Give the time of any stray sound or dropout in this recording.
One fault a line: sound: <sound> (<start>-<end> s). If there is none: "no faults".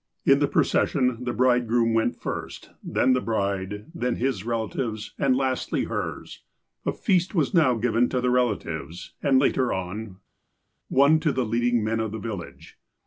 no faults